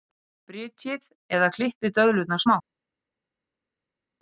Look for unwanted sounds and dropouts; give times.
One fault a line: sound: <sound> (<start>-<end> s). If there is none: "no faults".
no faults